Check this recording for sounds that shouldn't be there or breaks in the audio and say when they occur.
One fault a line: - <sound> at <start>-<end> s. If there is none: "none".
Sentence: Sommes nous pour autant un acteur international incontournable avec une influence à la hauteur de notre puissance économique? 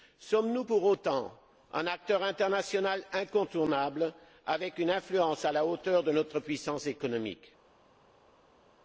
none